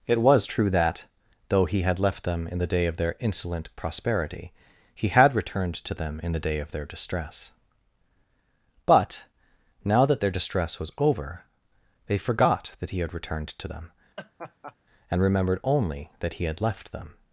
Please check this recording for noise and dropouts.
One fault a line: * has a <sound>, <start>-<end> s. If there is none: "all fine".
* has a laugh, 14.2-14.8 s